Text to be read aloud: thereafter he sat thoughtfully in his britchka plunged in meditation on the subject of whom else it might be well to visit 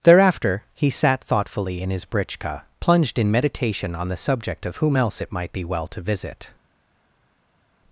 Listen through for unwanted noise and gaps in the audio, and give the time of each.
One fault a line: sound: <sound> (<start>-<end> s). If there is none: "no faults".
no faults